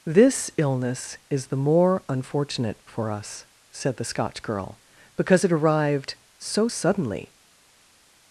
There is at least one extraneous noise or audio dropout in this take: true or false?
false